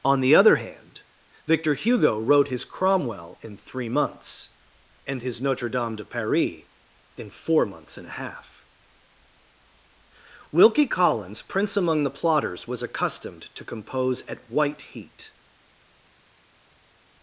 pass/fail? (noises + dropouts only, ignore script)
pass